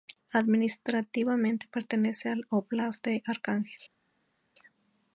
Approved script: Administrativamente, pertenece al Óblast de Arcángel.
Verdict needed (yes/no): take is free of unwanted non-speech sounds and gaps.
yes